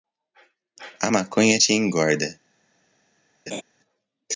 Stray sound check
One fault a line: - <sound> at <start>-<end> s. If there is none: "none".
- laugh at 3.5-3.6 s